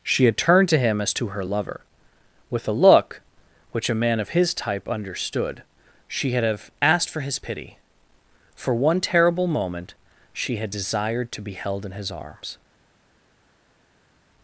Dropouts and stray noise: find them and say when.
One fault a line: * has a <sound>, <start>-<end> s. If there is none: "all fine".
all fine